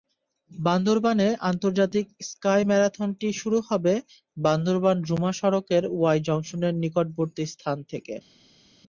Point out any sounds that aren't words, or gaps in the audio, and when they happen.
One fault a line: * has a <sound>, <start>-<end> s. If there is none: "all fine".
all fine